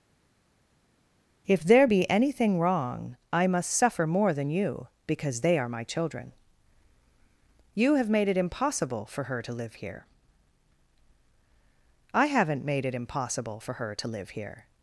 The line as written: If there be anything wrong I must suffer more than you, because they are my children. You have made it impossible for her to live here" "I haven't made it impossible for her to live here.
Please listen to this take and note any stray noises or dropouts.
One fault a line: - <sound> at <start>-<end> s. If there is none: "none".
none